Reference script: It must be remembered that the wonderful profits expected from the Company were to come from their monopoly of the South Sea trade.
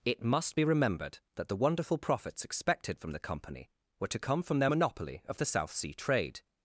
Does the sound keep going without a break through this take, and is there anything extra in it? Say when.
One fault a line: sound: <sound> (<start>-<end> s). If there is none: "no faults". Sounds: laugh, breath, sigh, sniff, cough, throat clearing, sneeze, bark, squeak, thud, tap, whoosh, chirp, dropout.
no faults